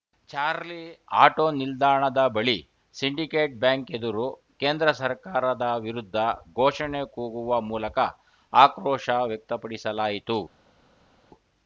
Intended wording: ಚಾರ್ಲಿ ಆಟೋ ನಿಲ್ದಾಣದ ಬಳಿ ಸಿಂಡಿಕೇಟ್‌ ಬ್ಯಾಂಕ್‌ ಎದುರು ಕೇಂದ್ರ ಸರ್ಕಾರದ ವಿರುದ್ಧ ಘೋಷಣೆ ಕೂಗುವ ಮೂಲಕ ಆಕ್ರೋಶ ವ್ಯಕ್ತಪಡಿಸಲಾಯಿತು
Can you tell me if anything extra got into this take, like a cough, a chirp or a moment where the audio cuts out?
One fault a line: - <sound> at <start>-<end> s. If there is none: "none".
none